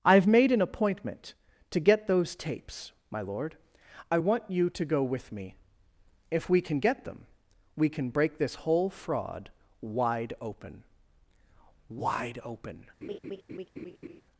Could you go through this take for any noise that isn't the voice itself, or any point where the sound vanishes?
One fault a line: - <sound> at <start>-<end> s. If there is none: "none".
- laugh at 13.0-14.2 s